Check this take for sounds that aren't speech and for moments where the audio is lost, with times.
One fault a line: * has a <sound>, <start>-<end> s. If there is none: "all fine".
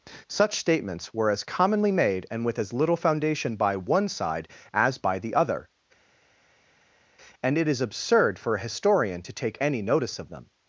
all fine